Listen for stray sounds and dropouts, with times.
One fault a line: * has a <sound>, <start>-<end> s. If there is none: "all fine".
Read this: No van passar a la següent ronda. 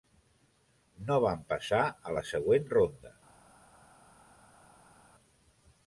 all fine